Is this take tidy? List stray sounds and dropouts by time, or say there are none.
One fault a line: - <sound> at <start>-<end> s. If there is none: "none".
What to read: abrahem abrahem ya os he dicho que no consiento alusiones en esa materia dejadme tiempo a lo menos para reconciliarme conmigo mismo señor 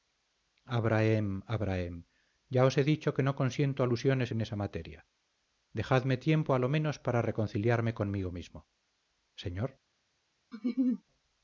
- laugh at 10.5-11.0 s